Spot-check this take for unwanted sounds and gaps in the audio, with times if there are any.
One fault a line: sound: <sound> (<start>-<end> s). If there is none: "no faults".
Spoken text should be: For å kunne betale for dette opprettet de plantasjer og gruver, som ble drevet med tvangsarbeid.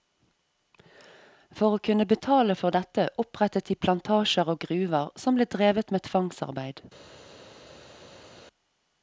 no faults